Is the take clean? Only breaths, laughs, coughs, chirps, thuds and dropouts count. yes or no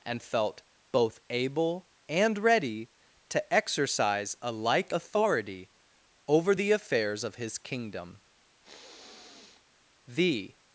no